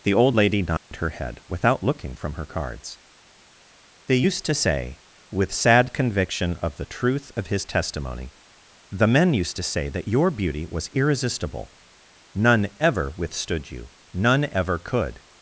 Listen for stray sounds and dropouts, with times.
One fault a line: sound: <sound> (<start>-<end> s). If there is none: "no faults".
sound: dropout (0.8-0.9 s)